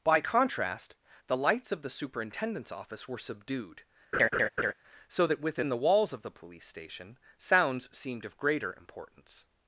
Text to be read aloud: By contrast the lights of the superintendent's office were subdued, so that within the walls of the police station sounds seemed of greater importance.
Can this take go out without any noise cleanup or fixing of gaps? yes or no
no